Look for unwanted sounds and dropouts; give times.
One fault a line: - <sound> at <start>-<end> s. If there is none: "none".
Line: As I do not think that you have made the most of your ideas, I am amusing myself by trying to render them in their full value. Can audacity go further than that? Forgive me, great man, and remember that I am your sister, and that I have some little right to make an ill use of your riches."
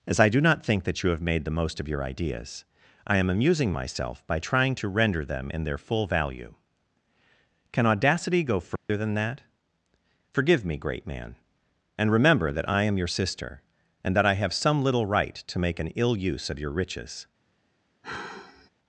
- dropout at 8.8-8.9 s
- sigh at 18.0-18.7 s